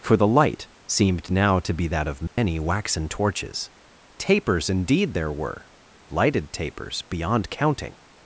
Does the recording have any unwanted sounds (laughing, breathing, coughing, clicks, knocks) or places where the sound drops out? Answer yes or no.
yes